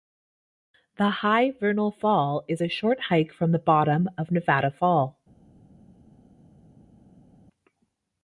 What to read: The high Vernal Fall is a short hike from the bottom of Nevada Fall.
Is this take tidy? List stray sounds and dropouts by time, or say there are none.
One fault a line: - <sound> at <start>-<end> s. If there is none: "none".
none